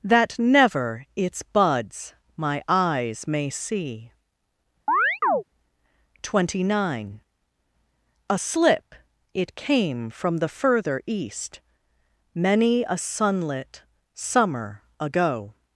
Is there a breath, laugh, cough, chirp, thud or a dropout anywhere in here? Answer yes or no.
yes